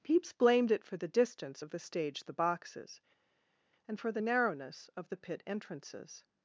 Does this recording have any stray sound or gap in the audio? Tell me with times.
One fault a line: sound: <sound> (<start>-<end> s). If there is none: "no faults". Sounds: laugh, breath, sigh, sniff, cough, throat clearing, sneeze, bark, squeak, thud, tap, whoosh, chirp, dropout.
no faults